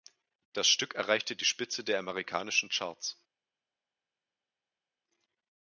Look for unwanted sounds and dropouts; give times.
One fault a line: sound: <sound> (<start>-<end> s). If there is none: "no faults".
no faults